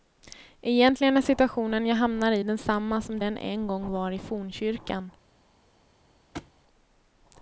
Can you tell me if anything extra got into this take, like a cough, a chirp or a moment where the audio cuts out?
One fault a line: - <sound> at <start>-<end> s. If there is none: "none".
- thud at 6.3-6.5 s